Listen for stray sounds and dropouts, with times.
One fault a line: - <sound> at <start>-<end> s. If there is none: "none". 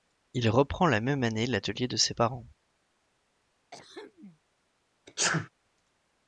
- throat clearing at 3.7-4.4 s
- sneeze at 5.1-5.5 s